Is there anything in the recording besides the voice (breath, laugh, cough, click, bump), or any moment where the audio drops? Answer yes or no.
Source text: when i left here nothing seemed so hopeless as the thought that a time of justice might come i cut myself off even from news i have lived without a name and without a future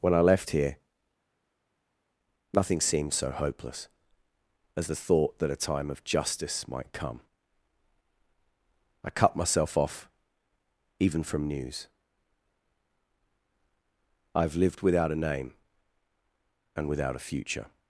no